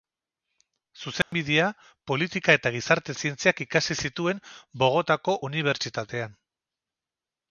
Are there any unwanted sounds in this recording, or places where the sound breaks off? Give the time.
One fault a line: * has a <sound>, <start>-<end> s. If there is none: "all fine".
* has a dropout, 1.2-1.3 s